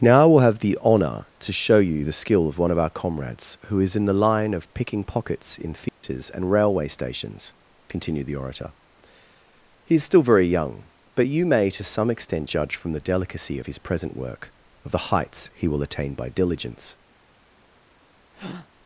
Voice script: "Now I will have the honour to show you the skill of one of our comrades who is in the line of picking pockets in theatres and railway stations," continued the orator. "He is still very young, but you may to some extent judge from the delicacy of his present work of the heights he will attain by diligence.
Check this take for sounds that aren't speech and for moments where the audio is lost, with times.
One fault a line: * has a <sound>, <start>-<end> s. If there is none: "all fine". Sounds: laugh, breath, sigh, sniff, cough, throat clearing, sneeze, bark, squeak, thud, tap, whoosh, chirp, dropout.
* has a dropout, 5.9-6.0 s
* has a breath, 18.3-18.7 s